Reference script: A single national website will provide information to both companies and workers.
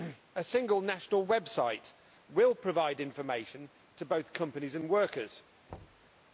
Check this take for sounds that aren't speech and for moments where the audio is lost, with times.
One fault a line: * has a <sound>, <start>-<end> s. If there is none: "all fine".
* has a thud, 5.7-6.1 s